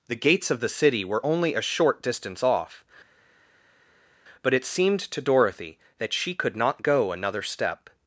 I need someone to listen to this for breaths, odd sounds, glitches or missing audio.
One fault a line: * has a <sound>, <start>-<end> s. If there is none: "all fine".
all fine